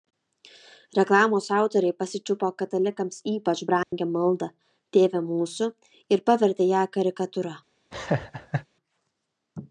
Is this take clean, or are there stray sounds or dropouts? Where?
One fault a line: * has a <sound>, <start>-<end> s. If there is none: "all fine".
* has a dropout, 3.8-3.9 s
* has a laugh, 7.9-8.7 s